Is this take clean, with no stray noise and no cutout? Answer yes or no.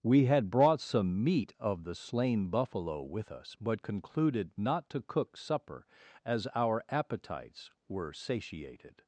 yes